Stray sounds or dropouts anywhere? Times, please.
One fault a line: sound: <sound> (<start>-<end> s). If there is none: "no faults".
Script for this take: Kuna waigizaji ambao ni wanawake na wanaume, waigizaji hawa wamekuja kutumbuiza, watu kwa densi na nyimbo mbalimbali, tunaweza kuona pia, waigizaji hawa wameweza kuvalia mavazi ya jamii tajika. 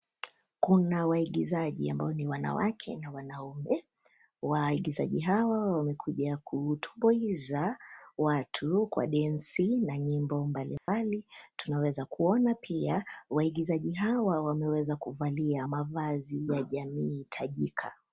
sound: dropout (10.8-10.9 s)